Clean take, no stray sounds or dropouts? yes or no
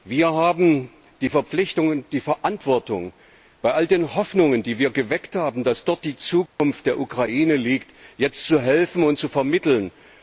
no